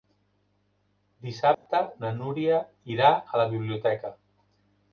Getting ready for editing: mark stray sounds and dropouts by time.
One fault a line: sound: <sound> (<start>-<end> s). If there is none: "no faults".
sound: dropout (1.5-1.7 s)